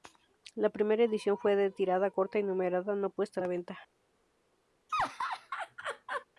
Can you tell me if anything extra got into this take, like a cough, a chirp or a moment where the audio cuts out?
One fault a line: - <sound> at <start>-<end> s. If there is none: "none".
- laugh at 4.9-6.3 s